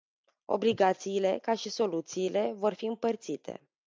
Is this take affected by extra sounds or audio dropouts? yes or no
no